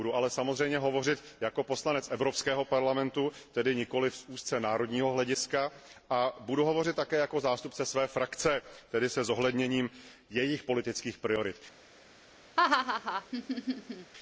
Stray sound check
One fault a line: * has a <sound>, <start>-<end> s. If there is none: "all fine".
* has a laugh, 12.6-14.1 s